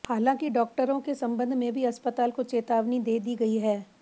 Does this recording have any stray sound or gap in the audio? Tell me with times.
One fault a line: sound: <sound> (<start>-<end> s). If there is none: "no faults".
no faults